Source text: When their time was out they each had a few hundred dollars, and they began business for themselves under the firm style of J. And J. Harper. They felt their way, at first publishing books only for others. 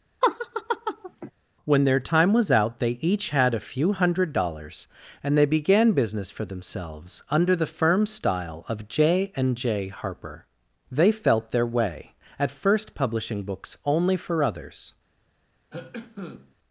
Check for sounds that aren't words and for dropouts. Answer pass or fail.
fail